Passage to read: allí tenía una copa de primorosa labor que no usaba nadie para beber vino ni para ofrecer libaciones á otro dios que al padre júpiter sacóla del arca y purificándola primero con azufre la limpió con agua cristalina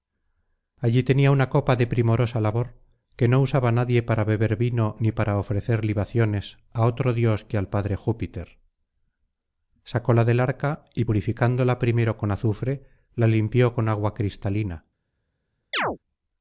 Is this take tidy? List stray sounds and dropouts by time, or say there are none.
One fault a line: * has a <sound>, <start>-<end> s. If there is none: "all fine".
* has a chirp, 15.7-16.0 s